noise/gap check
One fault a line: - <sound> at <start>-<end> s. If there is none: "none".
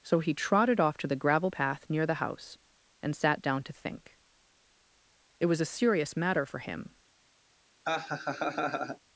- laugh at 7.8-9.0 s